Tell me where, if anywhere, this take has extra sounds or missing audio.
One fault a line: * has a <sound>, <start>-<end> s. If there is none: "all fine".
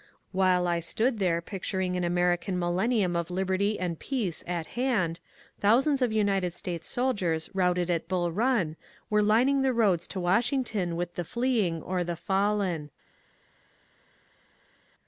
all fine